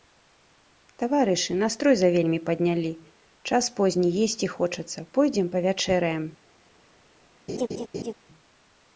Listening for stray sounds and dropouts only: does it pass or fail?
fail